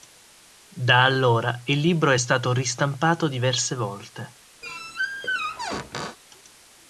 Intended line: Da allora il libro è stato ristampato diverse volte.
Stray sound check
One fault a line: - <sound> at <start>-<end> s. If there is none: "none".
- squeak at 4.6-6.2 s